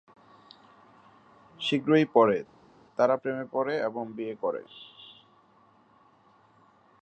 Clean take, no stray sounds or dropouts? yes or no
yes